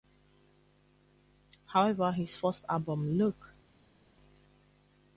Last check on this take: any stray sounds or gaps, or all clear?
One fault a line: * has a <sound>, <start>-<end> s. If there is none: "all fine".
all fine